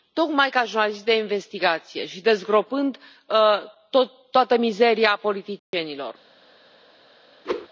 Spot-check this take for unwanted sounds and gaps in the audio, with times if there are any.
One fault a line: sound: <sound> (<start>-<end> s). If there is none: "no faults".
sound: dropout (5.6-5.7 s)
sound: whoosh (7.4-7.7 s)